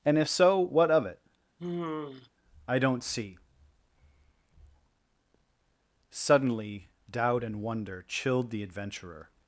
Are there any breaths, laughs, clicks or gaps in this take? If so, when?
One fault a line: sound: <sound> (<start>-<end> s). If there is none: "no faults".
sound: sigh (1.6-2.3 s)